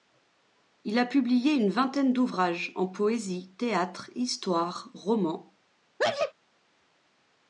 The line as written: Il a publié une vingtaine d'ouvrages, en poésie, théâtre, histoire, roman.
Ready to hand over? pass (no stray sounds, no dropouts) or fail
fail